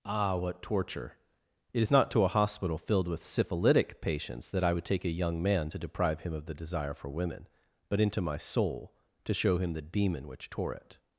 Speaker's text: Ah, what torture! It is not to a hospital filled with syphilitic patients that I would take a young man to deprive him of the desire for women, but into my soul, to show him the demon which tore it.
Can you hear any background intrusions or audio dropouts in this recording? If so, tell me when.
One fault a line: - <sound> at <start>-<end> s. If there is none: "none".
none